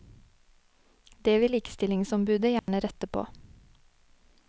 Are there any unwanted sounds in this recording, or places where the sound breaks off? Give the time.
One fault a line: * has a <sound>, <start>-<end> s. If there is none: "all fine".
* has a dropout, 2.6-2.7 s